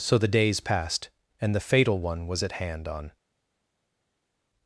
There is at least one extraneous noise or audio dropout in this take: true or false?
false